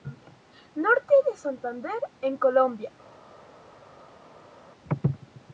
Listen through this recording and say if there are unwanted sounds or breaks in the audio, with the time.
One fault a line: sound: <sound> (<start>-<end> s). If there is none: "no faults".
no faults